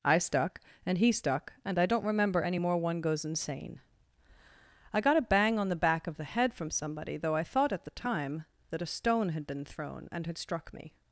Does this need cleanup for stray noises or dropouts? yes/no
no